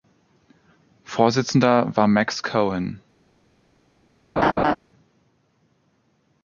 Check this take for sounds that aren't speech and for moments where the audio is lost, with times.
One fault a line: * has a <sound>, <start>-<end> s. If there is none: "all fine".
* has a laugh, 4.4-4.8 s